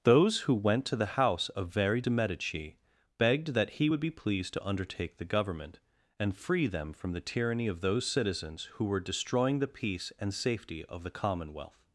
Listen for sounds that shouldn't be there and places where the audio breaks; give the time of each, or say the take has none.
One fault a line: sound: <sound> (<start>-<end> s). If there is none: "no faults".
no faults